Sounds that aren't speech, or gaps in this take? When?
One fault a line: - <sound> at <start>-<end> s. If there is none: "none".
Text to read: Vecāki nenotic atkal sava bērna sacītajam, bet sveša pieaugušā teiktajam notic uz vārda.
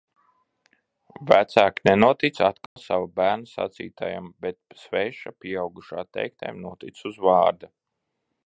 - dropout at 2.7-2.8 s